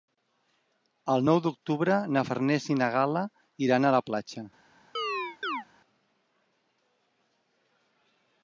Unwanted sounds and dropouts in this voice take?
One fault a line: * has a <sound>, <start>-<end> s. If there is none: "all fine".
* has a chirp, 4.9-5.7 s